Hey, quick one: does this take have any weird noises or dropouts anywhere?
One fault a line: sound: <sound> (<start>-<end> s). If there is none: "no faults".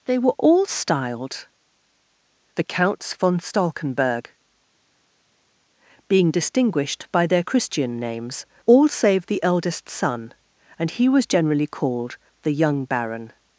no faults